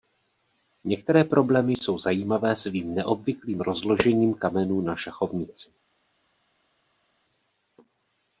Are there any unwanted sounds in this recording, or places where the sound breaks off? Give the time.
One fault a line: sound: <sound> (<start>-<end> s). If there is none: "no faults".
no faults